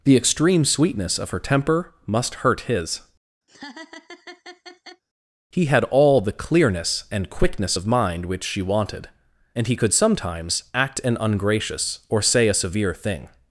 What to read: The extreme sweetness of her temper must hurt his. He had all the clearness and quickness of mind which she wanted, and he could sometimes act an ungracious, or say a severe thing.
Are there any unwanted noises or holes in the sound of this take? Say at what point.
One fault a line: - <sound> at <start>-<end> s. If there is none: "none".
- laugh at 3.5-5.0 s